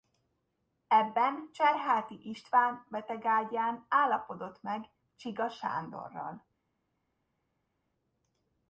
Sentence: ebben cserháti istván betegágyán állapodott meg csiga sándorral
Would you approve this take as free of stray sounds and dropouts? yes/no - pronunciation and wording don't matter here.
yes